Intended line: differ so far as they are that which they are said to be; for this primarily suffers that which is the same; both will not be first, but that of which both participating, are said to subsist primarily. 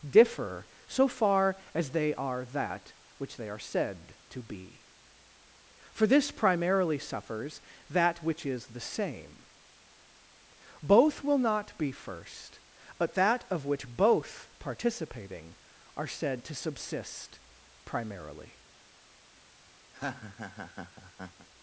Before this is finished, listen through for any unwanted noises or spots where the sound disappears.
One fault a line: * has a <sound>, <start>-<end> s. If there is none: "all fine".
* has a laugh, 19.9-21.5 s